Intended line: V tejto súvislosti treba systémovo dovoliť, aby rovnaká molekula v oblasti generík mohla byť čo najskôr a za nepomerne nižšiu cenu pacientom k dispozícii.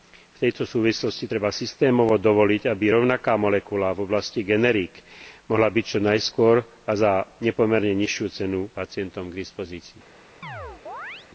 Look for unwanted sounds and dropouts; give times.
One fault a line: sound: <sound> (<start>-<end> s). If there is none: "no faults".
sound: chirp (10.4-11.3 s)